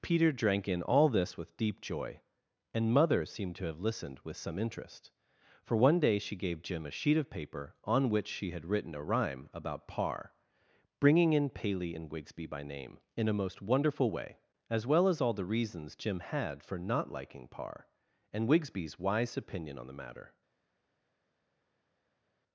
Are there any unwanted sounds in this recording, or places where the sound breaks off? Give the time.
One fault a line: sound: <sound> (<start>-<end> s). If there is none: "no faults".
no faults